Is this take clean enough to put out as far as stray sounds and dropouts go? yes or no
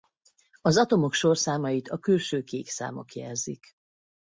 yes